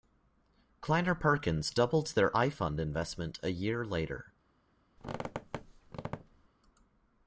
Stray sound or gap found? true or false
true